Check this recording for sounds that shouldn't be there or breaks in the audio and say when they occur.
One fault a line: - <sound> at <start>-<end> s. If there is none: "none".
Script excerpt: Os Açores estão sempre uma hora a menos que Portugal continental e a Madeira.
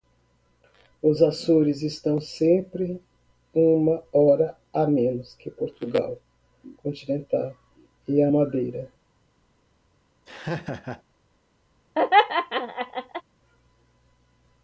- laugh at 10.3-11.0 s
- laugh at 12.0-13.2 s